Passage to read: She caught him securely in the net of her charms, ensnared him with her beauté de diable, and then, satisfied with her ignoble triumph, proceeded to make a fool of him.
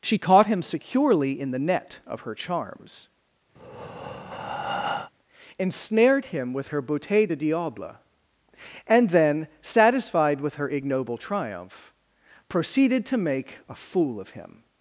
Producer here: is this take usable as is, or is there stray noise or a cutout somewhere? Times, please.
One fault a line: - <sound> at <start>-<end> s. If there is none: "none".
- breath at 3.6-5.1 s